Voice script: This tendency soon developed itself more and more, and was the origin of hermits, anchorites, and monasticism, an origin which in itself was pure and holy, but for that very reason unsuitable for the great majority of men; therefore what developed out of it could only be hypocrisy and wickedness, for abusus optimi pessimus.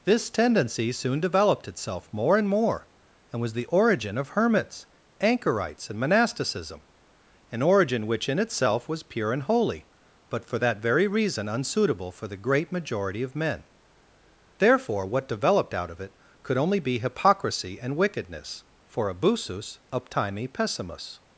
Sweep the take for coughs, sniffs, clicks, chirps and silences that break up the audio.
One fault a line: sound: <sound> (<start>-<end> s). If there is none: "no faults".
no faults